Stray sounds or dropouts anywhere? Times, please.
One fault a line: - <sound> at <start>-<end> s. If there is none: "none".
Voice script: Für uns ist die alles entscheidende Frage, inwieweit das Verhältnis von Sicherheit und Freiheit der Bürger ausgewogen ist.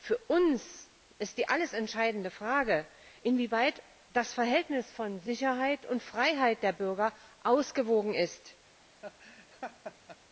- laugh at 9.0-10.2 s